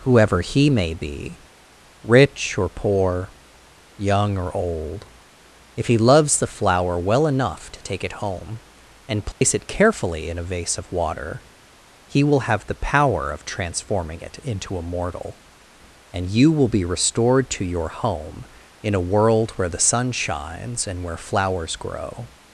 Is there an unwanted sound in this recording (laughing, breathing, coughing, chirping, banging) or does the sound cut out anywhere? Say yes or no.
yes